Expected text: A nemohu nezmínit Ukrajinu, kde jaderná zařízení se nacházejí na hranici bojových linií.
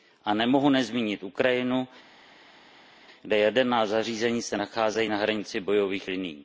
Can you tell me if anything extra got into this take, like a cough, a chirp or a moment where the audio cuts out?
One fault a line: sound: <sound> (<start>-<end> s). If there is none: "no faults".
no faults